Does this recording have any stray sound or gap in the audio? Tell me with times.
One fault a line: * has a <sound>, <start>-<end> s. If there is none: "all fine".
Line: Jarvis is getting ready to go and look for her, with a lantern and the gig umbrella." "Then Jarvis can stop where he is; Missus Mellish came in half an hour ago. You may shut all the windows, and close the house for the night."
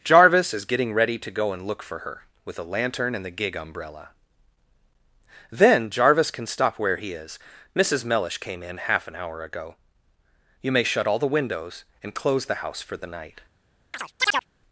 * has a chirp, 13.9-14.5 s